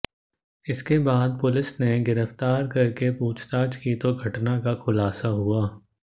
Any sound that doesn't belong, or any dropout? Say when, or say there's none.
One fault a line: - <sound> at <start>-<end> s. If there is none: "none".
none